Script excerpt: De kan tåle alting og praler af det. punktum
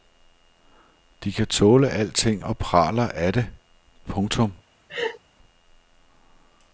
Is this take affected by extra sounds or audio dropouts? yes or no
yes